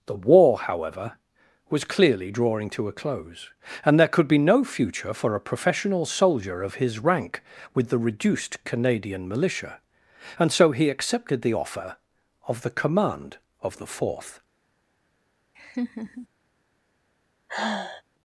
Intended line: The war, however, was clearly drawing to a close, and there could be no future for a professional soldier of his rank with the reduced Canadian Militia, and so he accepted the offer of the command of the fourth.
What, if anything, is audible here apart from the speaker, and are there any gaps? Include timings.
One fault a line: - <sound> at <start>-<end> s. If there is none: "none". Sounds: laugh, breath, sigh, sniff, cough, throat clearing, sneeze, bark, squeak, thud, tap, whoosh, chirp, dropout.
- laugh at 15.5-16.3 s
- sigh at 17.5-18.0 s